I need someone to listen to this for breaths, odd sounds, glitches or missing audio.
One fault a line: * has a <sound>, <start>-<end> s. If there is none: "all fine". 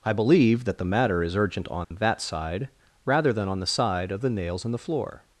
* has a dropout, 1.8-1.9 s